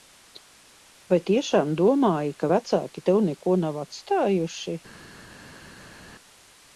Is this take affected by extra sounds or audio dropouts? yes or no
no